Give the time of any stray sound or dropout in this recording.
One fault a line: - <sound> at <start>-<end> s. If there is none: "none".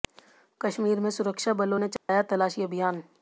- dropout at 2.0-2.1 s